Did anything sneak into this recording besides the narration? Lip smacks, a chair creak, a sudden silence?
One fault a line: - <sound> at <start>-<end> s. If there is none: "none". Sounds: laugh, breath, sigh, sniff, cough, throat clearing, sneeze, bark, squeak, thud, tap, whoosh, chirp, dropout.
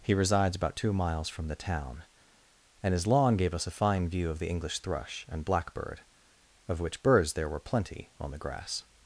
none